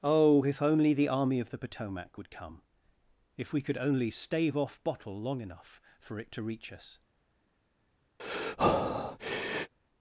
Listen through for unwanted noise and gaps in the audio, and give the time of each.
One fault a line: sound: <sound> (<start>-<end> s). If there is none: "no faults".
sound: breath (8.2-9.7 s)